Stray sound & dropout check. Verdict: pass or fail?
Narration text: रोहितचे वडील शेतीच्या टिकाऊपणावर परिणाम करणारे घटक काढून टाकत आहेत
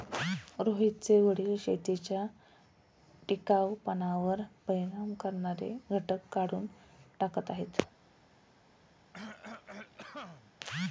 fail